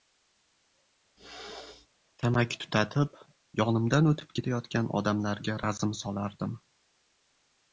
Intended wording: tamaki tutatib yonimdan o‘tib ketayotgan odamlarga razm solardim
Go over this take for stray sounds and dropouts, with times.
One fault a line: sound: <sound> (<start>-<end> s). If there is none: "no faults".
sound: throat clearing (1.2-1.9 s)